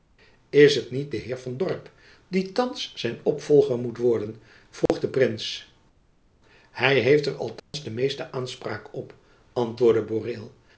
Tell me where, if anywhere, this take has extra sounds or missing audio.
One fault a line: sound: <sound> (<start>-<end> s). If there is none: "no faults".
sound: dropout (4.9-4.9 s)
sound: dropout (7.6-7.7 s)